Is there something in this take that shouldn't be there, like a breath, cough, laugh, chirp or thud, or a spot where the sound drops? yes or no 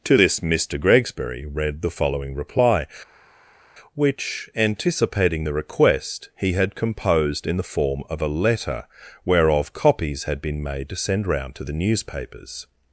no